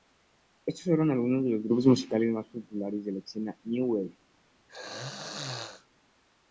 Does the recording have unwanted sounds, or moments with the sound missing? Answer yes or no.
yes